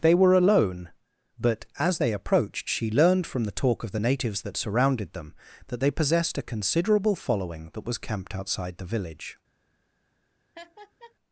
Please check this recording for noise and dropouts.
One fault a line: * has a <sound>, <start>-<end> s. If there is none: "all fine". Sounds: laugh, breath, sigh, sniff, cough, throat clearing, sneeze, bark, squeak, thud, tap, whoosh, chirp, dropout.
* has a laugh, 10.6-11.2 s